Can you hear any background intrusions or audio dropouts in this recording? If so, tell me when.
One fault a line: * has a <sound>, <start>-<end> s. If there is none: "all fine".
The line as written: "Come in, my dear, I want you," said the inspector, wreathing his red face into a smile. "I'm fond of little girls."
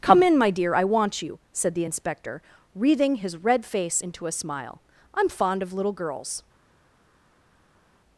all fine